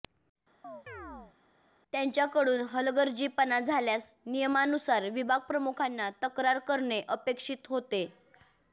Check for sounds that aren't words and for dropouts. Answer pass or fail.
fail